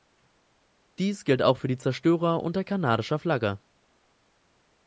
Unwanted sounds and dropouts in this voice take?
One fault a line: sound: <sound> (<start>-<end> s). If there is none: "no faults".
no faults